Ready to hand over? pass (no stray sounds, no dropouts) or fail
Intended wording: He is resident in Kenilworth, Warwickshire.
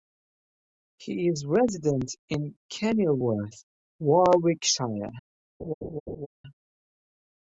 fail